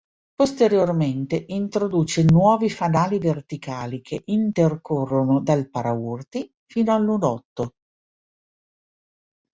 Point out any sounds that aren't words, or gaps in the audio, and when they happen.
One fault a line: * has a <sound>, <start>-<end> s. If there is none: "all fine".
all fine